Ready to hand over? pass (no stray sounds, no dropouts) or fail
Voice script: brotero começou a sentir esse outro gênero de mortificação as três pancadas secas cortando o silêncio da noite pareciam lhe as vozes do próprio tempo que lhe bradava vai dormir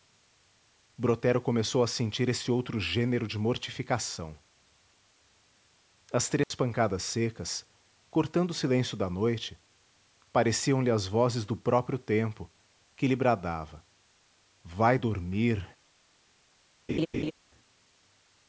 fail